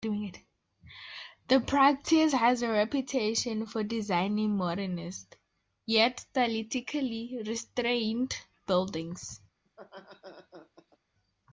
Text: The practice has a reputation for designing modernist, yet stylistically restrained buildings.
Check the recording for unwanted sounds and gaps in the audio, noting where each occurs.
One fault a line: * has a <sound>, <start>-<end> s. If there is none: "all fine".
* has a laugh, 9.7-11.0 s